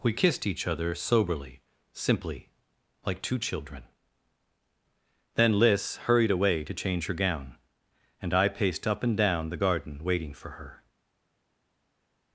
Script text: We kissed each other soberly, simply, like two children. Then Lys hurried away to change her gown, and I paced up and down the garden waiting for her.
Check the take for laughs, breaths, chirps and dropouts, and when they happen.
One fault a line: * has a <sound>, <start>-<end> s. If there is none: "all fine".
all fine